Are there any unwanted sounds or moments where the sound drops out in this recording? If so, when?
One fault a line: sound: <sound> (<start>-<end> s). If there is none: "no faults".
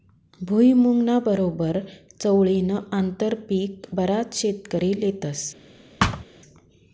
sound: thud (6.0-6.2 s)